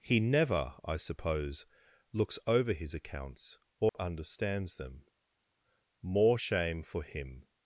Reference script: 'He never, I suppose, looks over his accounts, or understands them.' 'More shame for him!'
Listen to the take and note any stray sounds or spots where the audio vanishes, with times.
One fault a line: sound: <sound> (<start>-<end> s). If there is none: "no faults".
sound: dropout (3.9-3.9 s)